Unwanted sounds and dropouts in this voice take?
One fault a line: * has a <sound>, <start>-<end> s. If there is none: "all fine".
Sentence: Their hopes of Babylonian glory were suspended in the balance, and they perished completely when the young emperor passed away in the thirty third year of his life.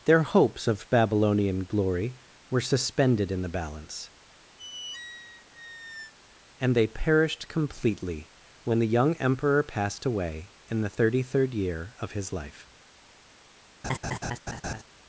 * has a squeak, 4.6-6.1 s
* has a laugh, 13.8-14.8 s